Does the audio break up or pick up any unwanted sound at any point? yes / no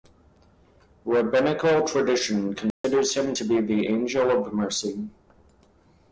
yes